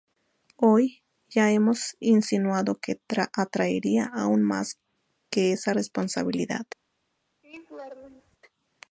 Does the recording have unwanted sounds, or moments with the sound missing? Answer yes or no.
yes